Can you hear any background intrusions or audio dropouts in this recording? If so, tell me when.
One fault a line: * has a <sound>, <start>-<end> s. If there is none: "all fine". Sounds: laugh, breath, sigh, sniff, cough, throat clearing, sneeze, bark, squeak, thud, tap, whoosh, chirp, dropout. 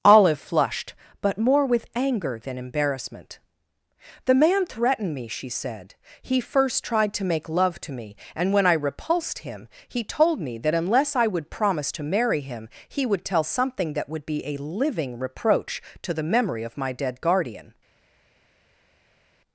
all fine